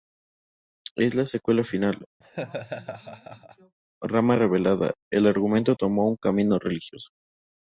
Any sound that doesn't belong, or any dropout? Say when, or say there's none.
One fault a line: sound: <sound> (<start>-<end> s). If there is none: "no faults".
sound: laugh (2.2-3.8 s)